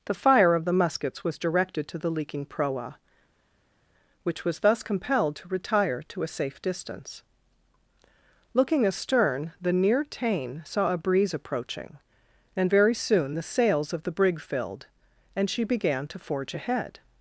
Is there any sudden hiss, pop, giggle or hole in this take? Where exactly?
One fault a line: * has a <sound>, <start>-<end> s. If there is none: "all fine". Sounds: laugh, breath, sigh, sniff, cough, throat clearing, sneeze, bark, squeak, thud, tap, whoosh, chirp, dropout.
all fine